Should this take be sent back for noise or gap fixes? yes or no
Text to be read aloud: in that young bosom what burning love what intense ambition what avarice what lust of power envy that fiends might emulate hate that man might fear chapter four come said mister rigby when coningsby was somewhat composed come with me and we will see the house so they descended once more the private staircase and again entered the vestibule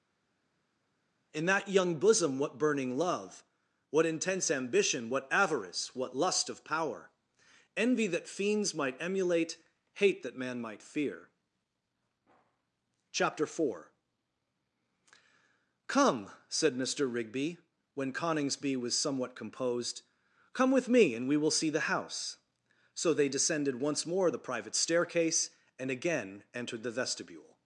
no